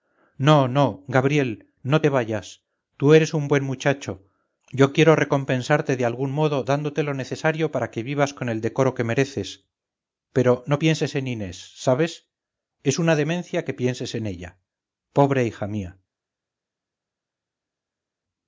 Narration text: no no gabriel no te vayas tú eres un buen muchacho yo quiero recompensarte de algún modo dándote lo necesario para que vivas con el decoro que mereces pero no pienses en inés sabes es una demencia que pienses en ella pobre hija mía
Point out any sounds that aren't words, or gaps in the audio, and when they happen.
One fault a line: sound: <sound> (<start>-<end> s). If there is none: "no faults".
no faults